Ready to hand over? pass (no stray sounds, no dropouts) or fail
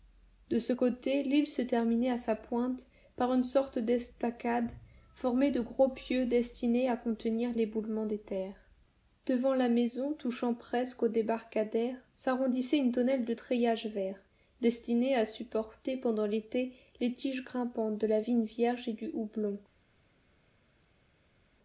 pass